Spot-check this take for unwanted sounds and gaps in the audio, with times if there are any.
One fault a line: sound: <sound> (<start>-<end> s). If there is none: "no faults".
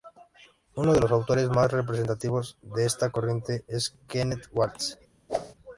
sound: whoosh (5.3-5.5 s)